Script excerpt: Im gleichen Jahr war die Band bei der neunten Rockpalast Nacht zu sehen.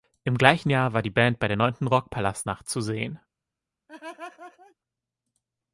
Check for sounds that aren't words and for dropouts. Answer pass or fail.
fail